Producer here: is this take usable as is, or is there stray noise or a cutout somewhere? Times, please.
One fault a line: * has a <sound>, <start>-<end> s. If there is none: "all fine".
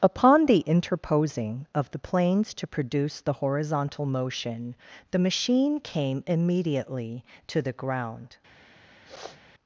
* has a sniff, 9.0-9.4 s